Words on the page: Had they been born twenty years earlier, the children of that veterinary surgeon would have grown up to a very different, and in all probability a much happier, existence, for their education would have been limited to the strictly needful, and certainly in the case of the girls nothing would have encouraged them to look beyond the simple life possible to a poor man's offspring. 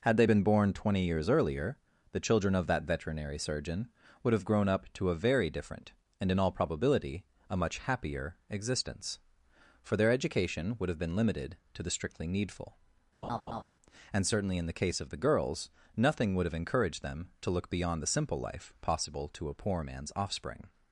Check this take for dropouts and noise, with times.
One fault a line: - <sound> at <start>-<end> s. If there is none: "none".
- laugh at 13.2-13.6 s